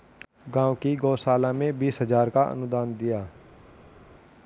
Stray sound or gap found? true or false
false